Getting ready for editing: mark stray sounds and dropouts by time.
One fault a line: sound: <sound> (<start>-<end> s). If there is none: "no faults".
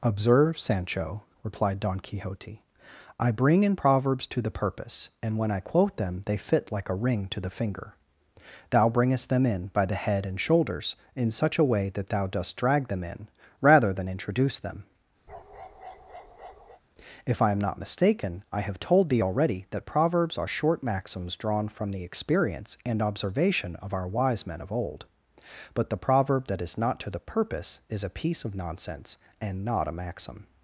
sound: bark (15.3-16.8 s)